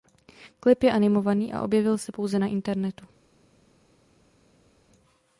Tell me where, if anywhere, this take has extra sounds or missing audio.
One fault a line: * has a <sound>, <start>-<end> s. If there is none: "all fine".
all fine